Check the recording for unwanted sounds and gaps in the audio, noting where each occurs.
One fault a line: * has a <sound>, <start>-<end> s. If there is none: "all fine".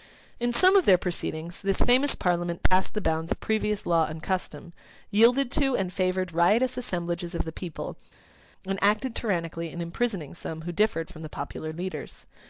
all fine